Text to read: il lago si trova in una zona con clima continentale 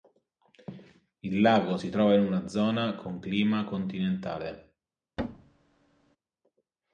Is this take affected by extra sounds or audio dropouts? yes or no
yes